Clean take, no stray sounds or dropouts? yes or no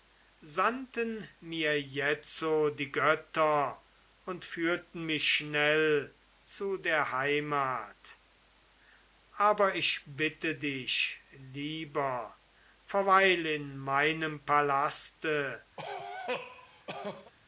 no